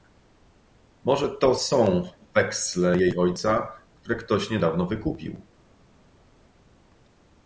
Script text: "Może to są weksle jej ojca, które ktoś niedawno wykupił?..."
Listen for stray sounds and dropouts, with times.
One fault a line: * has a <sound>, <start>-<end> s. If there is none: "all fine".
all fine